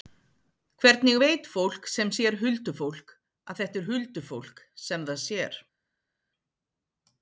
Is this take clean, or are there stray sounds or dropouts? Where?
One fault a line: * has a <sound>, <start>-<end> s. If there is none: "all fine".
all fine